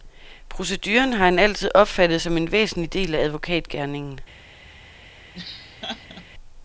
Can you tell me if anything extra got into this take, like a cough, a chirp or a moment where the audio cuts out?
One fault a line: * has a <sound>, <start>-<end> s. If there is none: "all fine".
* has a laugh, 5.3-6.3 s